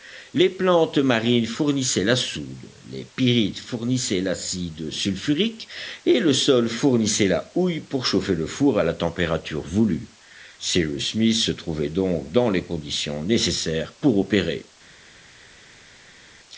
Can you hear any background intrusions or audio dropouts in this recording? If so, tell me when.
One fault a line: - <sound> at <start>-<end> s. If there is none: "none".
none